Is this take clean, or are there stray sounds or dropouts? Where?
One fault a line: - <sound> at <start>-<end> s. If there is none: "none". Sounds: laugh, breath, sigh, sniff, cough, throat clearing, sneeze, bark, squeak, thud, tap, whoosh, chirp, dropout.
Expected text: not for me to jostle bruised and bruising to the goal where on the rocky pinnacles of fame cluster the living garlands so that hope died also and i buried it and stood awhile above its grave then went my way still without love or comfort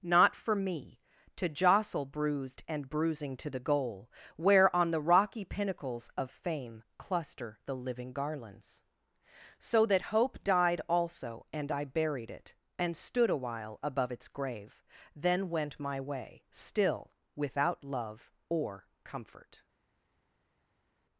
none